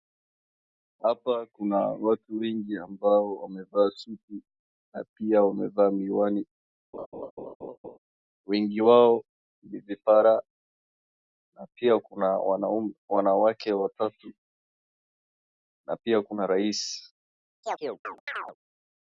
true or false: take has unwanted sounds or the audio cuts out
true